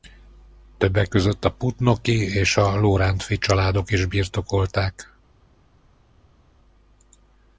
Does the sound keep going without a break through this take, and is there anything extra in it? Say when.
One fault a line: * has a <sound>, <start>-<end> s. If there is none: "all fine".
all fine